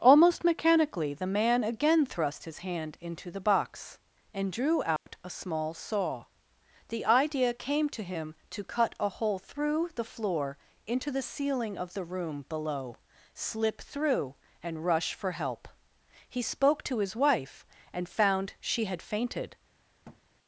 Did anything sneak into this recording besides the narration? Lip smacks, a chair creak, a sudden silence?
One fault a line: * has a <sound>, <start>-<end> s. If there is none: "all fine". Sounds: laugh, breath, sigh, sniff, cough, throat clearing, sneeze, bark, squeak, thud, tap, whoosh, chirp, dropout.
* has a dropout, 5.0-5.1 s
* has a thud, 20.0-20.2 s